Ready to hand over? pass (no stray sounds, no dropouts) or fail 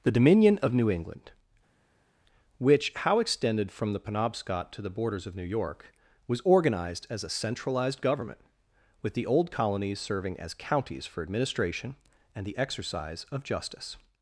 pass